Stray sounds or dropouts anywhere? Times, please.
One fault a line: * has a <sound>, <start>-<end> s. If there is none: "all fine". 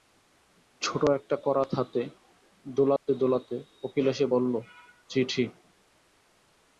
* has a dropout, 3.0-3.1 s